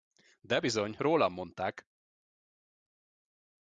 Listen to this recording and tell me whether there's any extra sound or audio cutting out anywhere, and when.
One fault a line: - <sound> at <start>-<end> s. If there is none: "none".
none